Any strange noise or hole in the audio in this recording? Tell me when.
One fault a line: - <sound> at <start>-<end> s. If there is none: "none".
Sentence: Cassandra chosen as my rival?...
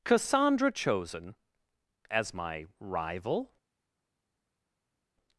none